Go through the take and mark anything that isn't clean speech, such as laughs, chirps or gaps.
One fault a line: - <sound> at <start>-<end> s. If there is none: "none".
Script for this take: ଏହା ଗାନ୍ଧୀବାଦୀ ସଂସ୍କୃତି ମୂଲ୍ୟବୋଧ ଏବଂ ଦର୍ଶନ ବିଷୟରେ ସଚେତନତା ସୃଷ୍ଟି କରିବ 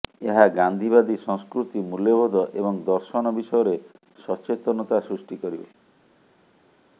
none